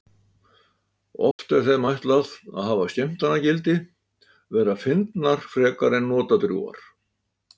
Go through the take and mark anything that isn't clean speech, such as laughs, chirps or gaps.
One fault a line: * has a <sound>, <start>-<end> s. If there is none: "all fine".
* has a dropout, 1.3-1.4 s